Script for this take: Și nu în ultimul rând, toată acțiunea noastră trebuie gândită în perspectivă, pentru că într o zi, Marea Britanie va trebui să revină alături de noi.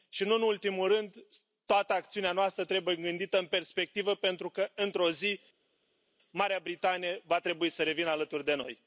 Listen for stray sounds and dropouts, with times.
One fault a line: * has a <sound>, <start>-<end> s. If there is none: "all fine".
all fine